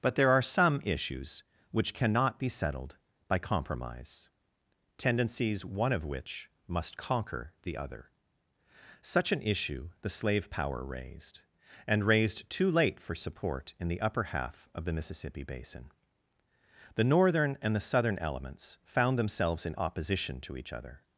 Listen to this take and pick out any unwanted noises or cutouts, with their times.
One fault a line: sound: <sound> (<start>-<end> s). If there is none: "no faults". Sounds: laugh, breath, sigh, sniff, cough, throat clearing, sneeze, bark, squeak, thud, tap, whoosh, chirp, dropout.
no faults